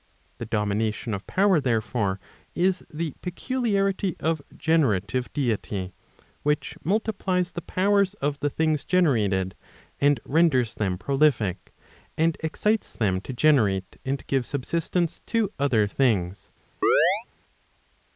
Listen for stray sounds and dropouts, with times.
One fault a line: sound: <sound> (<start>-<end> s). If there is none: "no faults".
sound: chirp (16.8-17.2 s)